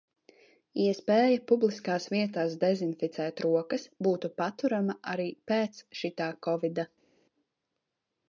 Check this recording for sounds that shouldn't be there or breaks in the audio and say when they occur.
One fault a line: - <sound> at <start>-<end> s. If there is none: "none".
none